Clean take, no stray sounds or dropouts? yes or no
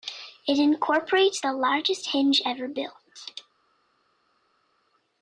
yes